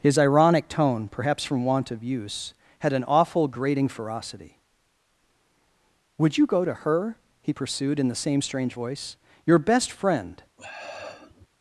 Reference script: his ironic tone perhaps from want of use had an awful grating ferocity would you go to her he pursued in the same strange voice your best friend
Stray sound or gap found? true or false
true